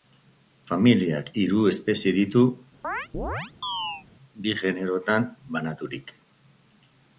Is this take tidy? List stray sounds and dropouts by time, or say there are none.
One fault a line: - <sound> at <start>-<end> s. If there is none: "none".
- chirp at 2.8-4.1 s